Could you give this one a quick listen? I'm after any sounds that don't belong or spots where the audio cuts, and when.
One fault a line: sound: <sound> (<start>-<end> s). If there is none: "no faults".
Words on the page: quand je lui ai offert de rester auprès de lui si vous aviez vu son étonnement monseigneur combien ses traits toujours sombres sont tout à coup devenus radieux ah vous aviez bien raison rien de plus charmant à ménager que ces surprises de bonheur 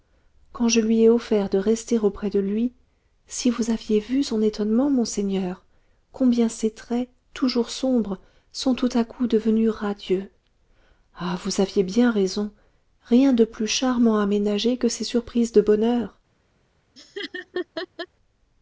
sound: laugh (17.0-18.1 s)